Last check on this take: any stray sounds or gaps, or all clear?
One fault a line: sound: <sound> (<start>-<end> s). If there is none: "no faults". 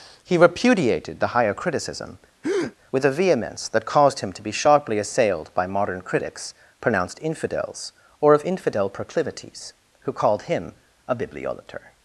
sound: breath (2.4-2.8 s)